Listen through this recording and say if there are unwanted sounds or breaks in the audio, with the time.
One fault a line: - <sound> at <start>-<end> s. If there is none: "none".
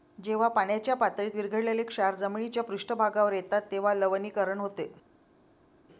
none